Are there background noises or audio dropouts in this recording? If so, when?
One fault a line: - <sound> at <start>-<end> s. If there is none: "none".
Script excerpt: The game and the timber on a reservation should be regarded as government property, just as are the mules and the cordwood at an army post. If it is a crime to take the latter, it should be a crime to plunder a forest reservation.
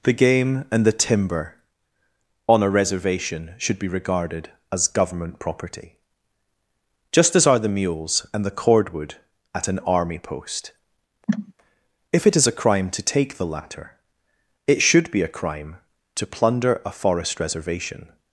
- cough at 11.3-11.5 s